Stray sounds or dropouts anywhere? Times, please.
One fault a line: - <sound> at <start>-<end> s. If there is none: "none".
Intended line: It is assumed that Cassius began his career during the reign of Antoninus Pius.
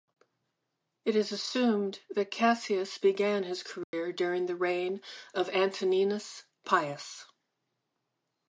- dropout at 3.8-3.9 s